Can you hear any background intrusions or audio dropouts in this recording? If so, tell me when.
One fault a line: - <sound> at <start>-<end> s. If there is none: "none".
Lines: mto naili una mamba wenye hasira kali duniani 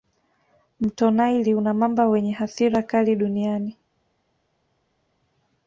none